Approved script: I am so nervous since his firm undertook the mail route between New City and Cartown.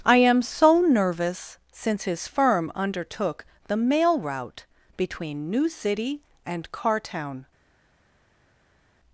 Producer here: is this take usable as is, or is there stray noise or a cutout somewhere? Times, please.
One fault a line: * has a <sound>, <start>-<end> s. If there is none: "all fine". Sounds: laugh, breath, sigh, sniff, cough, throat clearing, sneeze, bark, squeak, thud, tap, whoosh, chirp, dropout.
all fine